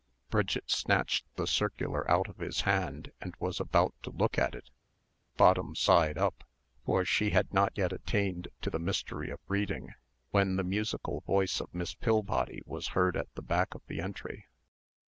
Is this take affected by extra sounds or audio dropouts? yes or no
no